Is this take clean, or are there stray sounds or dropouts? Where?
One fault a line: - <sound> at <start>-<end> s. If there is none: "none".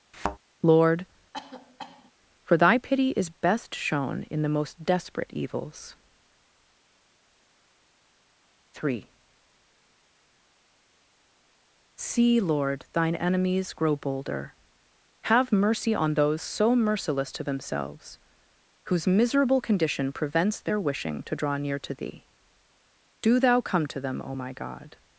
- thud at 0.1-0.4 s
- cough at 1.3-2.1 s